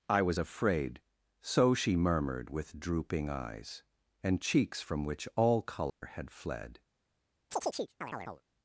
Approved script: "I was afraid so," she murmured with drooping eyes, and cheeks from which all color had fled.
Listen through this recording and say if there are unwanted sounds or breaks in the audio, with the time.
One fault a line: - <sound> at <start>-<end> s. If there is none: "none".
- dropout at 5.9-6.0 s
- chirp at 7.5-8.4 s